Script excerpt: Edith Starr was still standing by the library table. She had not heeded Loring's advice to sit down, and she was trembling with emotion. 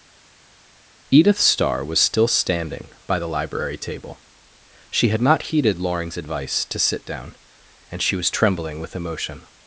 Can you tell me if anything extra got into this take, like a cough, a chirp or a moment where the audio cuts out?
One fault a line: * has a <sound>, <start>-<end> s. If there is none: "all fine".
all fine